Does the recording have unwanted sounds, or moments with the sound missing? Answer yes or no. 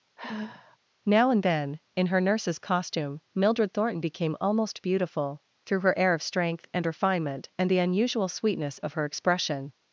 yes